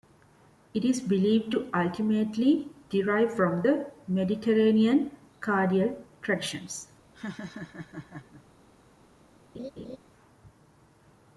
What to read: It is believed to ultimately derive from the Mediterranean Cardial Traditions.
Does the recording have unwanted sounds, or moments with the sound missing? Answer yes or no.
yes